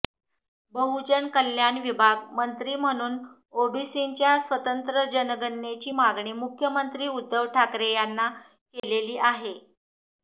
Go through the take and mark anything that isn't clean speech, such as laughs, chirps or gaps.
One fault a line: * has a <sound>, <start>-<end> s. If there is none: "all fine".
* has a dropout, 8.8-8.8 s